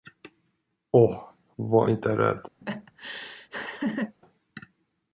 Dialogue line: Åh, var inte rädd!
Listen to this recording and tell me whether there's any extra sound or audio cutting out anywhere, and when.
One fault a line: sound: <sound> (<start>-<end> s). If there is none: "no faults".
sound: laugh (2.6-4.2 s)